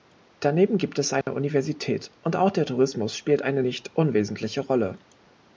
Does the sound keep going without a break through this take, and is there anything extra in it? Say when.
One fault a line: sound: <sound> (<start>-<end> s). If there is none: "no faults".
sound: dropout (1.2-1.3 s)